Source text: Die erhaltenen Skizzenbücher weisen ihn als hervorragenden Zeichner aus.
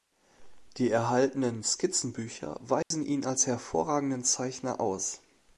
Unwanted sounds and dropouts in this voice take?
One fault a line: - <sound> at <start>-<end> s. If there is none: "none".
- dropout at 2.8-2.9 s